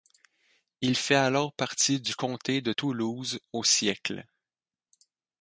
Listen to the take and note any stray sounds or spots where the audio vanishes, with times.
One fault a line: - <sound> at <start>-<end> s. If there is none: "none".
none